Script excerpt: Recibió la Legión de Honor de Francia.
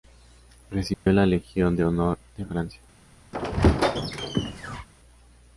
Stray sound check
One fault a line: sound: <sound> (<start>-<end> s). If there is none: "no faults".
sound: dropout (0.9-1.1 s)
sound: squeak (3.3-4.9 s)